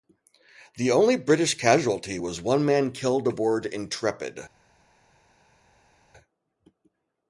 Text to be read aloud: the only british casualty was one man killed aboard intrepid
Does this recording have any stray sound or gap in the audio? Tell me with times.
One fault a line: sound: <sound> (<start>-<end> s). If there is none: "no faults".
no faults